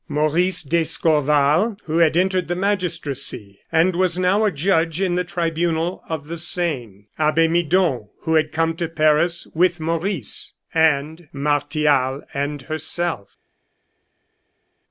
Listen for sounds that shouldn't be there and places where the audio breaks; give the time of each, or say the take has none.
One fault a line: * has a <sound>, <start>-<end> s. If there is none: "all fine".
all fine